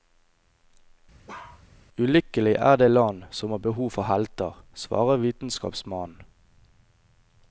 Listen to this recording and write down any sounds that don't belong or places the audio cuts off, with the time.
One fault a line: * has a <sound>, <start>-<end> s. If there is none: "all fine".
* has a bark, 1.3-1.6 s